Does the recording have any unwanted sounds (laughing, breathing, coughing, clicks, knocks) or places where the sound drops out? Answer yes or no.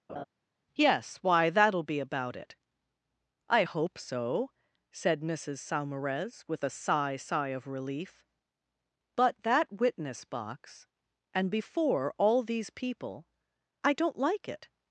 yes